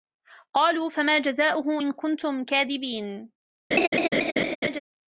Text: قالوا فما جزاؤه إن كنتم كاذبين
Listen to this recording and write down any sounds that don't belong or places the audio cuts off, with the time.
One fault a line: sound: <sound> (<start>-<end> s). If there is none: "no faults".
sound: laugh (3.7-4.8 s)